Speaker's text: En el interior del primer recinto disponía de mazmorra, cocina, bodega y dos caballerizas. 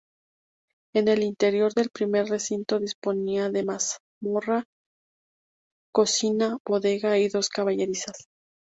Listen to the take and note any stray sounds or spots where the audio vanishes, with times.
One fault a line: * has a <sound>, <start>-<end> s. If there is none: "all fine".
all fine